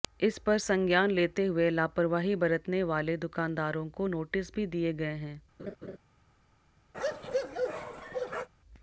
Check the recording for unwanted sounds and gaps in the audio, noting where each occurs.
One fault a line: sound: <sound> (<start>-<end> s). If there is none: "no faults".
sound: laugh (5.6-6.0 s)
sound: bark (6.9-8.5 s)